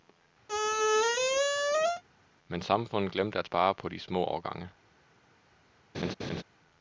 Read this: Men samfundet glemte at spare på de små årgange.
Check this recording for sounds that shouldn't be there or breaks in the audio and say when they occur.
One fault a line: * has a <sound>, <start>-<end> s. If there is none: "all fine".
* has a squeak, 0.5-2.0 s
* has a laugh, 5.9-6.4 s